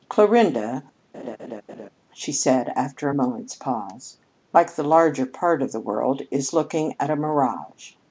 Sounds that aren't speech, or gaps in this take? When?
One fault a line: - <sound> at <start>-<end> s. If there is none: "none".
- laugh at 1.1-1.9 s